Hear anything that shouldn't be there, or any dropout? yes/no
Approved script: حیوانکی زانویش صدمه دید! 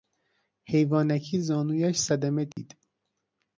yes